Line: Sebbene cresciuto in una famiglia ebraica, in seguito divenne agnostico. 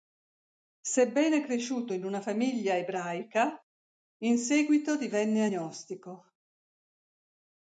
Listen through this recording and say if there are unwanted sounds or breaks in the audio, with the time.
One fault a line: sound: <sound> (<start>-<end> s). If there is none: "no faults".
no faults